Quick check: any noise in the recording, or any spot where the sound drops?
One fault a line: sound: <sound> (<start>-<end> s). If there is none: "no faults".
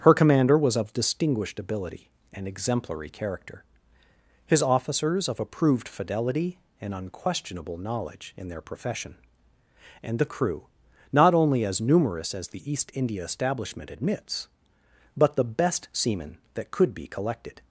no faults